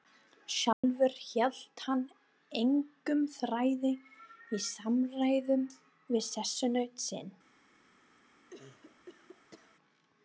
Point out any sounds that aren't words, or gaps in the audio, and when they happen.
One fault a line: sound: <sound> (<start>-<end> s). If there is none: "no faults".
sound: dropout (0.7-0.8 s)
sound: cough (8.5-9.8 s)